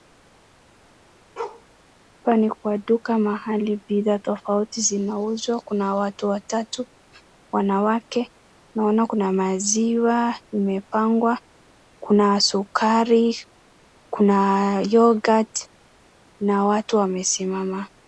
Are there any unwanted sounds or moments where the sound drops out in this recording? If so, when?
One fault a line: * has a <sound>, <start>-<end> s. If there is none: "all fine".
* has a bark, 1.4-1.7 s